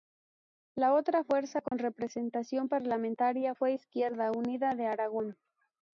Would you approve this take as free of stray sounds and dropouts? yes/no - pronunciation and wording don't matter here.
no